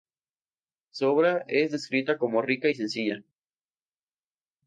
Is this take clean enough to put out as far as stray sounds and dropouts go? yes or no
yes